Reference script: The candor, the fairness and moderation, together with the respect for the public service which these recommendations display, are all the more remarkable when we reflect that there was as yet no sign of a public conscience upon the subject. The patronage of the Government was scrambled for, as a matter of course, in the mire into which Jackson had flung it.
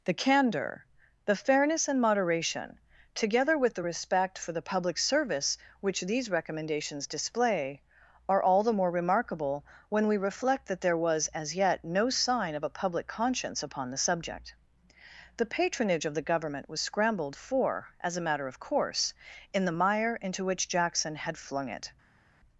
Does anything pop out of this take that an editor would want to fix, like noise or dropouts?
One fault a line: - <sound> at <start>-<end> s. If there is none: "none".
none